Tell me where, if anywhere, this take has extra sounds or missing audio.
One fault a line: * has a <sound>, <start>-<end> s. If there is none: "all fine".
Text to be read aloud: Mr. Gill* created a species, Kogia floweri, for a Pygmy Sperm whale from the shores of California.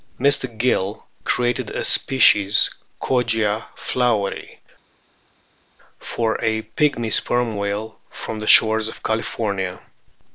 all fine